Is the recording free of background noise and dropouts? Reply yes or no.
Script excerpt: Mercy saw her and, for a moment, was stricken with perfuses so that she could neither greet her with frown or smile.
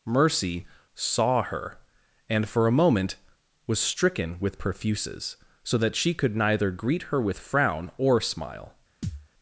no